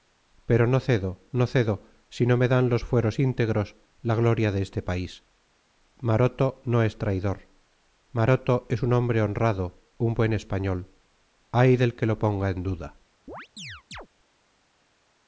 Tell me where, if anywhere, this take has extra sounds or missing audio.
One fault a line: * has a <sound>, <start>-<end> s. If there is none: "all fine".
* has a chirp, 13.3-14.1 s